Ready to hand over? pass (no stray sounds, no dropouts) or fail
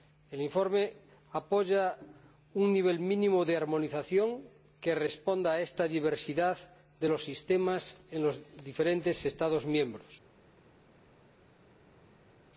pass